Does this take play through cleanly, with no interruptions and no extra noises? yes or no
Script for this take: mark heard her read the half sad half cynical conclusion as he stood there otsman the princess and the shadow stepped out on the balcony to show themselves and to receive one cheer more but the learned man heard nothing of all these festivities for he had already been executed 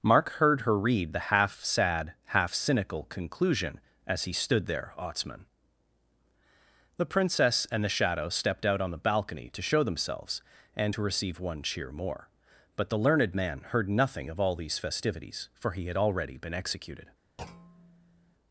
no